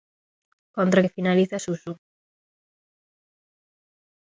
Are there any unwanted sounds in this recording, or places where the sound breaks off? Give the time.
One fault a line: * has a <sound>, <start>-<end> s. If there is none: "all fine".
all fine